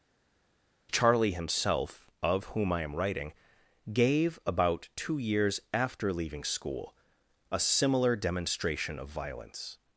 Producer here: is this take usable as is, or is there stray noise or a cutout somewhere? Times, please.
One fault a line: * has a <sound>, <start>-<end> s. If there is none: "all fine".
all fine